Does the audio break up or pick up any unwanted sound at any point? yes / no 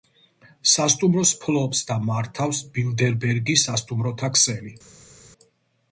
no